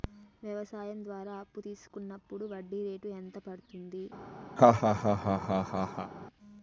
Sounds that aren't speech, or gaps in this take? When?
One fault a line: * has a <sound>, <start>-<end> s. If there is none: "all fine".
* has a laugh, 4.6-6.1 s